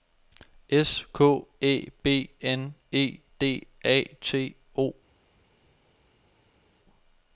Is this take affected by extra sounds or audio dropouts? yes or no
no